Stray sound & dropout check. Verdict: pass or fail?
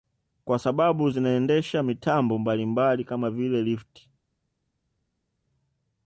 pass